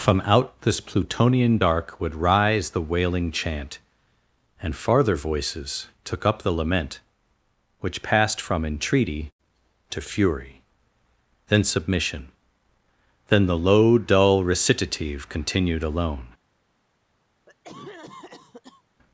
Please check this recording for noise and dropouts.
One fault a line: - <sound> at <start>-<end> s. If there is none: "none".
- cough at 17.5-18.8 s